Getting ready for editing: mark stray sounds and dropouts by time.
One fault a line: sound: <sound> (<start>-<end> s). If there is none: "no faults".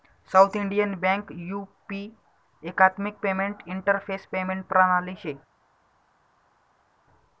no faults